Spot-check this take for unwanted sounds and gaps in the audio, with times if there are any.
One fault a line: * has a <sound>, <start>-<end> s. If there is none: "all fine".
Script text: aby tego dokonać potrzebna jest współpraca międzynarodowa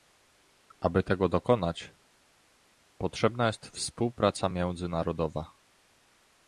all fine